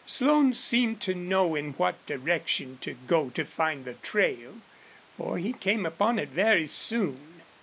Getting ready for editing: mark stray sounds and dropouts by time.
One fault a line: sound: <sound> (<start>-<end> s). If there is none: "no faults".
no faults